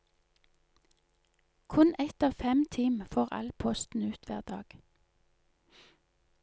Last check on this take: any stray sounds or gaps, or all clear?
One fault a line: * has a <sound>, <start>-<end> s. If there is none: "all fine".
all fine